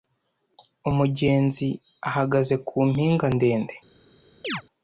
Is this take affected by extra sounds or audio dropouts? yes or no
yes